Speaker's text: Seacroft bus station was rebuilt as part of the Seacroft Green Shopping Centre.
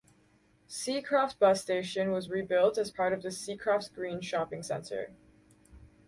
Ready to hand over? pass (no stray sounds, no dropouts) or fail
pass